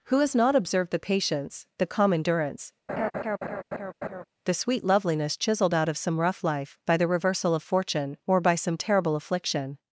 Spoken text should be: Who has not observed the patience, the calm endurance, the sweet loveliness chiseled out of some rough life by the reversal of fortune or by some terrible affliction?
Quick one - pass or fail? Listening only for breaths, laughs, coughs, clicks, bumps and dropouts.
fail